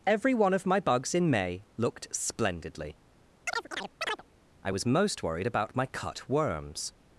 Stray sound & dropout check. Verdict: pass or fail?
fail